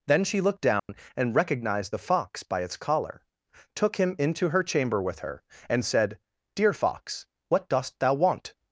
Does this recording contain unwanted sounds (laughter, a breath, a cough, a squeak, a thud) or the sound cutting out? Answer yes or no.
yes